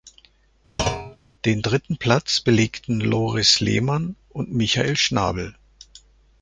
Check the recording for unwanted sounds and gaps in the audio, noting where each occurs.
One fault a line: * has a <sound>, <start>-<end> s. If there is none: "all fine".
* has a thud, 0.8-1.2 s